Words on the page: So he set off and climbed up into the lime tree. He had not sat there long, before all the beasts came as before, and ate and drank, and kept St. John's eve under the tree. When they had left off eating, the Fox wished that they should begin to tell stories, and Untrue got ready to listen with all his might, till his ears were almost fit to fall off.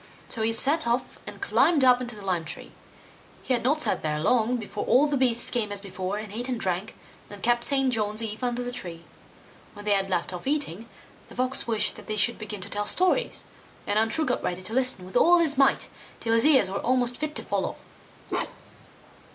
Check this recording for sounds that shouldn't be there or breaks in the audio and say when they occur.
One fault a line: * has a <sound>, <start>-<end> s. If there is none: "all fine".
* has a bark, 18.3-18.9 s